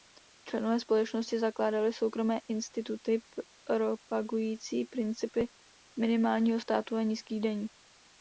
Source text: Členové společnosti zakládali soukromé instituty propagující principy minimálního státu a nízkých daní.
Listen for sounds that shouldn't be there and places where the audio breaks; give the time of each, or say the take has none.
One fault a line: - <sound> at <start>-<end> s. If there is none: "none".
none